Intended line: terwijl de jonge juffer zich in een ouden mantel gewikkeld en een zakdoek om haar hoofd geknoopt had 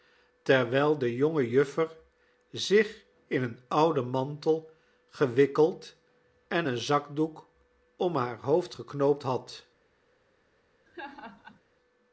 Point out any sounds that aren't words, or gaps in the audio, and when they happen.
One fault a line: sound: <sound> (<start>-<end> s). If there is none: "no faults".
sound: laugh (10.9-11.6 s)